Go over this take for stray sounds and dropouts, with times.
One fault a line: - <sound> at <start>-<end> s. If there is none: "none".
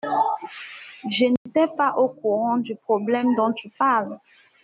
- dropout at 1.4-1.5 s